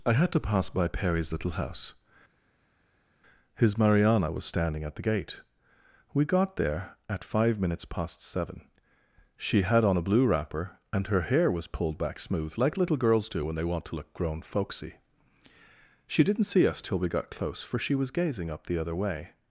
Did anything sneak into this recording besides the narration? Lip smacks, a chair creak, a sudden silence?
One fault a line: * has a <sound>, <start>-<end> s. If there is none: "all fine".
all fine